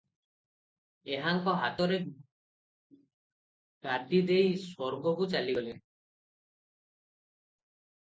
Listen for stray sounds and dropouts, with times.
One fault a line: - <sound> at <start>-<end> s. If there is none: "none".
none